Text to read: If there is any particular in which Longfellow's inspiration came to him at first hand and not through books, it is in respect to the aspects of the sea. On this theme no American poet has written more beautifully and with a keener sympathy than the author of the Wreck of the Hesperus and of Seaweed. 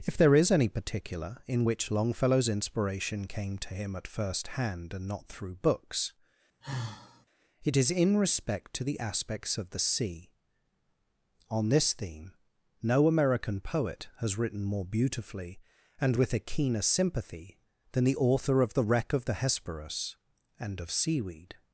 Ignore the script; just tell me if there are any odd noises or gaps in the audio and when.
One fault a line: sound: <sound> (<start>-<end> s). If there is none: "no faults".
sound: sigh (6.6-7.3 s)